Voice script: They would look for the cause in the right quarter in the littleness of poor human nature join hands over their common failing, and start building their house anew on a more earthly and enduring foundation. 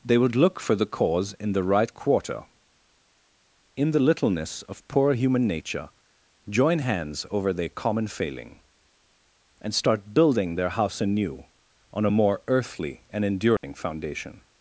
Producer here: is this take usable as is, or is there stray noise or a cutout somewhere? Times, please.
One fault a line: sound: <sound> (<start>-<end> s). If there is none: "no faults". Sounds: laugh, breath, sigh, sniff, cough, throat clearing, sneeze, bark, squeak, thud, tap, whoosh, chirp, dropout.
sound: dropout (13.6-13.6 s)